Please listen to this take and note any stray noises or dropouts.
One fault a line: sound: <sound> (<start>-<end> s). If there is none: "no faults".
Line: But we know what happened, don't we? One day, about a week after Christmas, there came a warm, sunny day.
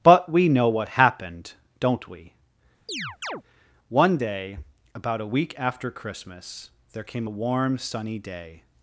sound: chirp (2.9-3.4 s)